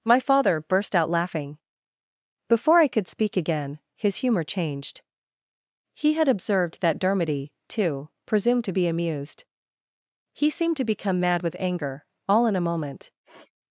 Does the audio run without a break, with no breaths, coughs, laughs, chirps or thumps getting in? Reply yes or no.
no